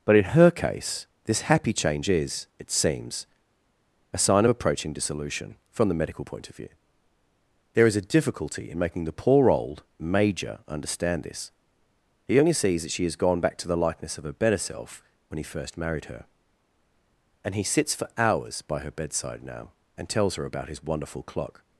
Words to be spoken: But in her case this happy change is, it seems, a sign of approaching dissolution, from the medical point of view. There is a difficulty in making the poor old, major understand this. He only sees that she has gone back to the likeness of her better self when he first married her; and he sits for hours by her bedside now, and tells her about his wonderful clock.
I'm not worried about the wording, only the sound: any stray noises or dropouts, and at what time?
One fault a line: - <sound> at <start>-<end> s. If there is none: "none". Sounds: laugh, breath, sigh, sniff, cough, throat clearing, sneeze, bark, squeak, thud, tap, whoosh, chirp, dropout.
none